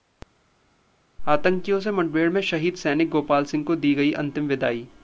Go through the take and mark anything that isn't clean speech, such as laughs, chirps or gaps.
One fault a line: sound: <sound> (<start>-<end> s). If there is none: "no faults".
no faults